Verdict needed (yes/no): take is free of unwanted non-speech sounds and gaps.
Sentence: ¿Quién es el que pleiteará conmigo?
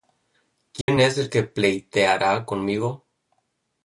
no